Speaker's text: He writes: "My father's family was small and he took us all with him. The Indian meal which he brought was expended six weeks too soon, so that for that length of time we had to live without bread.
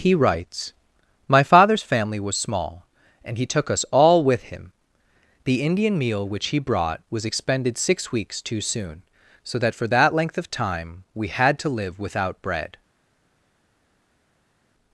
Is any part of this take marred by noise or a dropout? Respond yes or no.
no